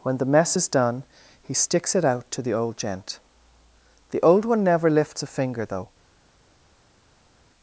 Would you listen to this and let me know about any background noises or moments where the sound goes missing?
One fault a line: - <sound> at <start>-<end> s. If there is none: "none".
none